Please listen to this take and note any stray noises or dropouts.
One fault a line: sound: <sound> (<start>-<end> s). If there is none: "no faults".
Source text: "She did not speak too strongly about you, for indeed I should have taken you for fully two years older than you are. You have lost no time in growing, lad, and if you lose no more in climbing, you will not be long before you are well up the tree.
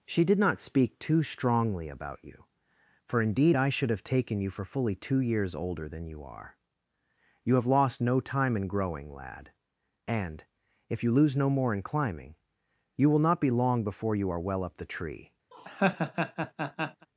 sound: laugh (15.5-17.1 s)